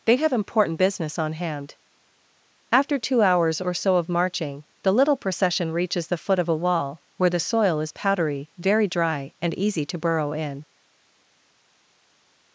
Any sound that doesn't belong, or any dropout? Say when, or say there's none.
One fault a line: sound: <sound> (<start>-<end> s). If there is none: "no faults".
no faults